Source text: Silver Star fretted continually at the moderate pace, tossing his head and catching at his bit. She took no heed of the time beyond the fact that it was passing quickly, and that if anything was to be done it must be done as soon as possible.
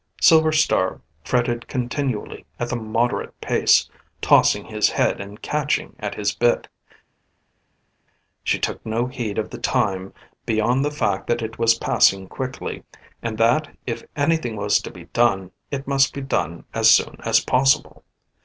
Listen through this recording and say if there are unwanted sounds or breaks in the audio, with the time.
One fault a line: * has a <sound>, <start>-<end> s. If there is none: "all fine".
all fine